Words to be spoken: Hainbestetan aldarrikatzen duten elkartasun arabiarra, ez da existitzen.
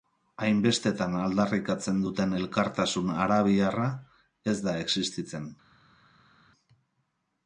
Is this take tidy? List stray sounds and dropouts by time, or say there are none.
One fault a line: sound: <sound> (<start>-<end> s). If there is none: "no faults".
no faults